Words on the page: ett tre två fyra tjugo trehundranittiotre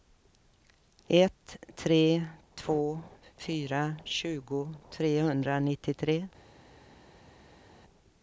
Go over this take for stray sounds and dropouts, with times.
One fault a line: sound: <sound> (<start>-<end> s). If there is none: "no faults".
no faults